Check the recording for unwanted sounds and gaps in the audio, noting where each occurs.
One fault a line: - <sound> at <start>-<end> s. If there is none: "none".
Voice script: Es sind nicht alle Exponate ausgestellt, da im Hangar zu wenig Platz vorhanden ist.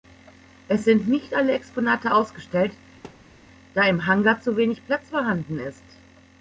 - thud at 3.0-3.4 s